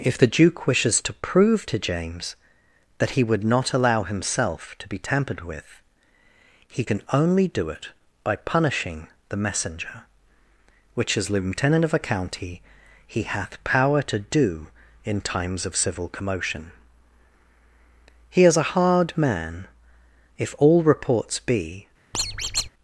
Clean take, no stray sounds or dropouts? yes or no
no